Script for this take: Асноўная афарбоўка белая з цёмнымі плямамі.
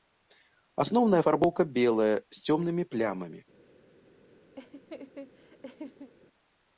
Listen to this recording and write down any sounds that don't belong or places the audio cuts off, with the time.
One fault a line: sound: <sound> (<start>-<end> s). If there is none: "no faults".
sound: laugh (4.6-6.1 s)